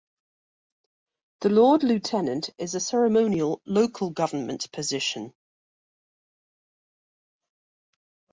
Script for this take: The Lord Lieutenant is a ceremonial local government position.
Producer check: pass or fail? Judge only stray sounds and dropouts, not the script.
pass